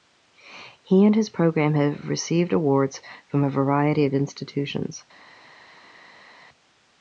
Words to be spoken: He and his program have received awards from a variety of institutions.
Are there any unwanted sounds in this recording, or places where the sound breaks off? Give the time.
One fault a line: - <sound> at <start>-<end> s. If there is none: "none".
none